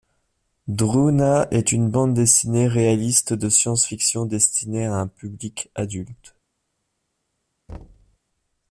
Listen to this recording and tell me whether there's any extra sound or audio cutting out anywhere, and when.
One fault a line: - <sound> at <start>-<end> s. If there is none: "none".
- thud at 7.7-8.2 s